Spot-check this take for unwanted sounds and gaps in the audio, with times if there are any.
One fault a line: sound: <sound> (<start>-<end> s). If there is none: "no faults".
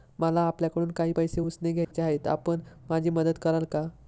sound: dropout (1.8-1.9 s)